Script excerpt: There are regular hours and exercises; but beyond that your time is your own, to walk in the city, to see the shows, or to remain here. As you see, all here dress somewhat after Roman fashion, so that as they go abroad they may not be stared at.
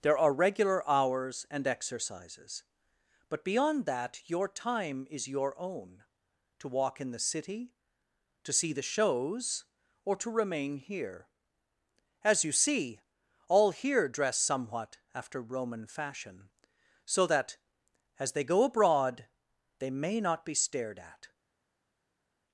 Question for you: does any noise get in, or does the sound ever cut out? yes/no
no